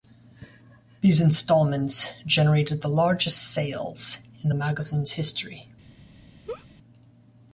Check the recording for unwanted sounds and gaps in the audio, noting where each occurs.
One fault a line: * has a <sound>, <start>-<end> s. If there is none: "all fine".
* has a laugh, 6.5-6.7 s